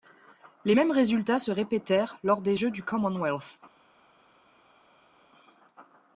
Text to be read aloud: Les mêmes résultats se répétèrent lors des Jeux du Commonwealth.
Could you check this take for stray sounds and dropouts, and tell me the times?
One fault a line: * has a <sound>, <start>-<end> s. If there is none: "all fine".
all fine